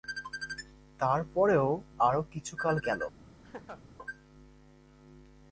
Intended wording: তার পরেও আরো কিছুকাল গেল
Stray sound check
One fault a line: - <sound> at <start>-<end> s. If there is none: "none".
- laugh at 3.4-3.8 s